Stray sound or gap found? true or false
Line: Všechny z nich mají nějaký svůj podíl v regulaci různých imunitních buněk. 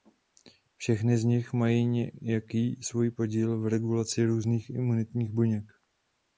false